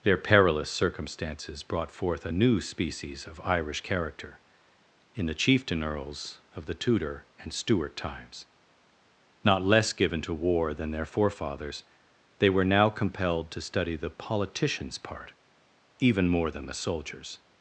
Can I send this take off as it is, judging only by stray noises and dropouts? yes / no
yes